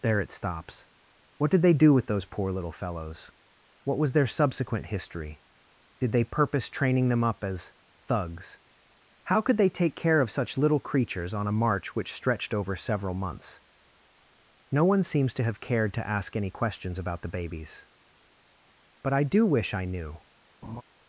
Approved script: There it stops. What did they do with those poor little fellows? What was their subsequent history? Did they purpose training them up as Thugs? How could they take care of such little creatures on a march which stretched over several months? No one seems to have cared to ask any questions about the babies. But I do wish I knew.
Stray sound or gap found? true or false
true